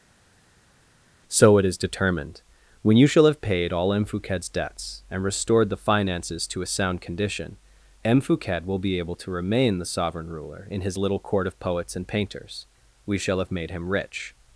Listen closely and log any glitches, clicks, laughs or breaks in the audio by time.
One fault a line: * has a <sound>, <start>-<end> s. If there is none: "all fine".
all fine